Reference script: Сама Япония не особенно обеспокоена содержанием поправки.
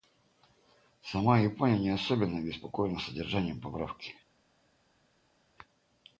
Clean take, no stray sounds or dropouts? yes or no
yes